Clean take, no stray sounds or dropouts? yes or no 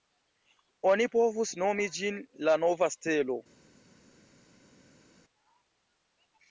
yes